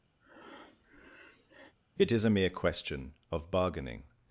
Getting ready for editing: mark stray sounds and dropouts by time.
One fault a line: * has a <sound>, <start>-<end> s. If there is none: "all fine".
* has a breath, 0.2-1.7 s